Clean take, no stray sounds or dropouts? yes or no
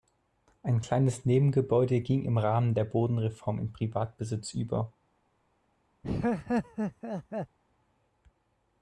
no